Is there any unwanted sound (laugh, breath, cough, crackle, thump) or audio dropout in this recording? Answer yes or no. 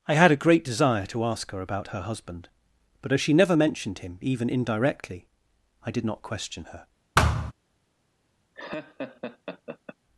yes